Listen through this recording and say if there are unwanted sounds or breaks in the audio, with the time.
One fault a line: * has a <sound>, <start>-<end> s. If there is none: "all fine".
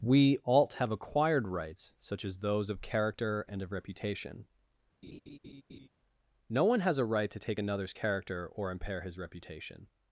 * has a laugh, 5.0-5.9 s